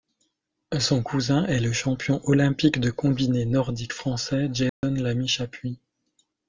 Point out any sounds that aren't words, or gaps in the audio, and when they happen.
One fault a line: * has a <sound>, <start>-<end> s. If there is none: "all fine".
* has a dropout, 4.7-4.8 s